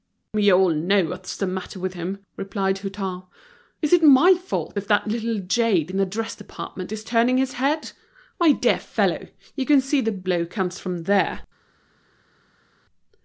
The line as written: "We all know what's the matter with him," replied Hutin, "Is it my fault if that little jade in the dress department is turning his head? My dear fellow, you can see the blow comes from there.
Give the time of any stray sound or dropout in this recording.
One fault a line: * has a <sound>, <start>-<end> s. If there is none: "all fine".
all fine